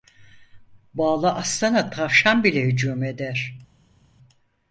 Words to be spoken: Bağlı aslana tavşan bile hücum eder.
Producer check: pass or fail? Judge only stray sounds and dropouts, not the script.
pass